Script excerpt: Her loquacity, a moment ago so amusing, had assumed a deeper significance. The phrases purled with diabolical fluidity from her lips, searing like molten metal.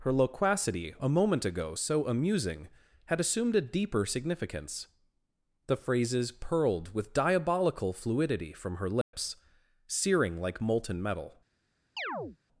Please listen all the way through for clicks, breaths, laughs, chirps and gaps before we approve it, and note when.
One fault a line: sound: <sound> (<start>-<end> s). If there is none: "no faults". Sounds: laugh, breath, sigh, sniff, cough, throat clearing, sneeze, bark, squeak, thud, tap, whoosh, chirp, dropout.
sound: dropout (9.0-9.1 s)
sound: chirp (12.0-12.4 s)